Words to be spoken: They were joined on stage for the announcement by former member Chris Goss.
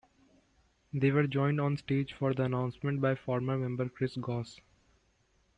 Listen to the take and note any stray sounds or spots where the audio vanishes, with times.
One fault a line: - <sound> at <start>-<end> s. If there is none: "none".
none